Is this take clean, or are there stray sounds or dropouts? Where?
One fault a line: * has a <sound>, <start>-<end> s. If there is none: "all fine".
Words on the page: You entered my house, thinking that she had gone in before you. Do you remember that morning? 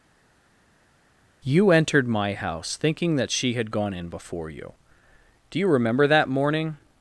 all fine